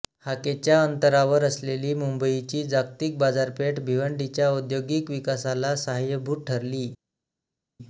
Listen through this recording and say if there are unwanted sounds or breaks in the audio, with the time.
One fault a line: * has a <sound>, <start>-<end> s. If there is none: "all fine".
all fine